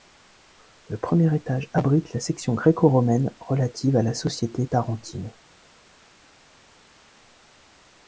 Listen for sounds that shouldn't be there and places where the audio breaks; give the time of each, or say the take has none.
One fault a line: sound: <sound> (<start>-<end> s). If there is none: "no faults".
no faults